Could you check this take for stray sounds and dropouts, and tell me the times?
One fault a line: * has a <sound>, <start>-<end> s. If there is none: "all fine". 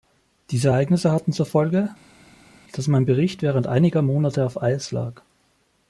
all fine